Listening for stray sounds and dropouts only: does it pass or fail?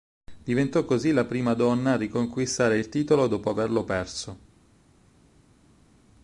pass